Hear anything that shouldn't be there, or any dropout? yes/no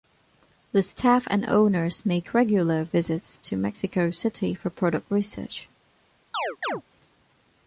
yes